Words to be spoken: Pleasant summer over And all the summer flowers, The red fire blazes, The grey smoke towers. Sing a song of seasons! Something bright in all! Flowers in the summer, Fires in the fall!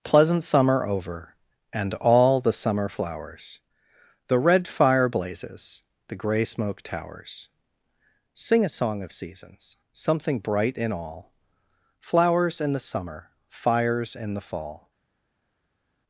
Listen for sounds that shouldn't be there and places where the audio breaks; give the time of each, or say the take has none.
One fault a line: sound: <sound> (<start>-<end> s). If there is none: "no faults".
no faults